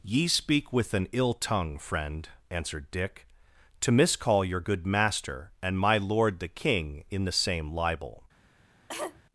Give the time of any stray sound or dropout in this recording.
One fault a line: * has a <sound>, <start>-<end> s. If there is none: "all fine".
* has a cough, 8.9-9.2 s